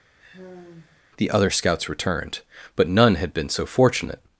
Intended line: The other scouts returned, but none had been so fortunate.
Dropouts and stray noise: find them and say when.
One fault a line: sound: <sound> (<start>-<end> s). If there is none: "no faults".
sound: sigh (0.2-1.0 s)